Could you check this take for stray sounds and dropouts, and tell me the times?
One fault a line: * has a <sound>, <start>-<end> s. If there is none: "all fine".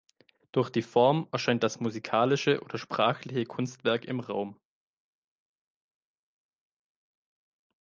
all fine